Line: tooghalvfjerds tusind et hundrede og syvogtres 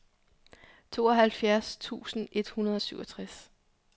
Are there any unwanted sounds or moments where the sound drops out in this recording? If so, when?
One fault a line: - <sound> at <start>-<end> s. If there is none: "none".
none